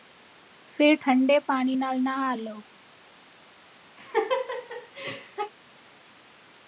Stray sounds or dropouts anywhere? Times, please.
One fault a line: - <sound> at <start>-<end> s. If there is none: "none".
- laugh at 4.0-5.5 s